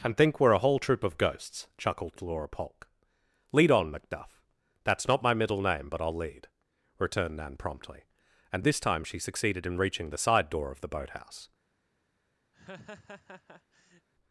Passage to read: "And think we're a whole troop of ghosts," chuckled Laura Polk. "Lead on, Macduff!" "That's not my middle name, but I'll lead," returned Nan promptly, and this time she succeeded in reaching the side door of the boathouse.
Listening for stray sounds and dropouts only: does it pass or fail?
fail